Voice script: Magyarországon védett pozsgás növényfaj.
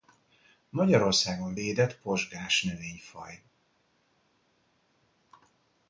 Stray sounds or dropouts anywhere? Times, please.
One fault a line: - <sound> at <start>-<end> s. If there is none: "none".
none